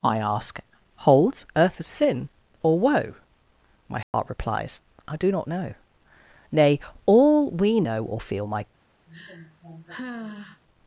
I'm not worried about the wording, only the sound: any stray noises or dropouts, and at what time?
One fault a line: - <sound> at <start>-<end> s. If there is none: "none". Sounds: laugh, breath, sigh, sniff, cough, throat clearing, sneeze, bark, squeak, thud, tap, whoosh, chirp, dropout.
- dropout at 4.0-4.1 s
- sigh at 9.1-10.6 s